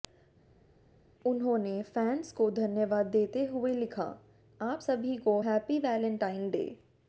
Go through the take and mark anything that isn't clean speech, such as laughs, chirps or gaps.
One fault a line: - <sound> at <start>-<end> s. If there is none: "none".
none